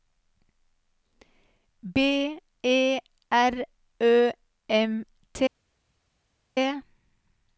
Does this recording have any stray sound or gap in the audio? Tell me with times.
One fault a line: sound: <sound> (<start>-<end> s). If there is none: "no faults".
no faults